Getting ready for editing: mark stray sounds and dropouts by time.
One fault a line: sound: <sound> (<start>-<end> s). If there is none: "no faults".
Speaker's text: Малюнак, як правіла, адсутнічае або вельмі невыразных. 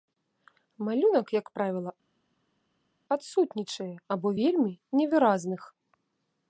no faults